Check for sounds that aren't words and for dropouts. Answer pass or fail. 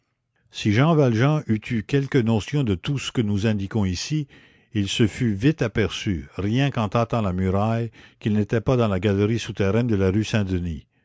pass